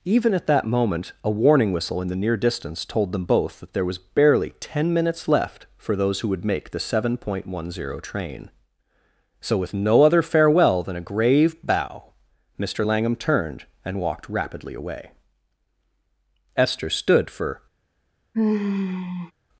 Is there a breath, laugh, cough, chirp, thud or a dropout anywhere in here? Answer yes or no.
yes